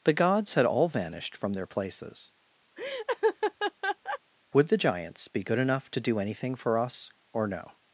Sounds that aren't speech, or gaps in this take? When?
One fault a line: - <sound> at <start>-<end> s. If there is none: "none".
- laugh at 2.8-4.2 s